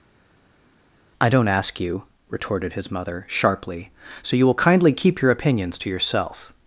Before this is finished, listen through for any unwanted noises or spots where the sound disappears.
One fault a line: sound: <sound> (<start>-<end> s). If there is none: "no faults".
no faults